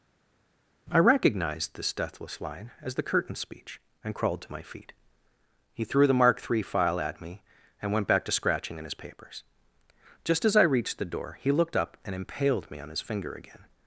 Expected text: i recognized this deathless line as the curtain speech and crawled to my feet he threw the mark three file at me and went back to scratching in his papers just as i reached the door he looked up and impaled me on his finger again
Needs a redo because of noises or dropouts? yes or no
no